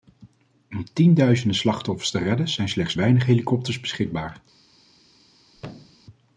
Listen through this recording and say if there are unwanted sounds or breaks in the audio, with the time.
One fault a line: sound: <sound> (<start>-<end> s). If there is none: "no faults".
sound: thud (5.5-6.1 s)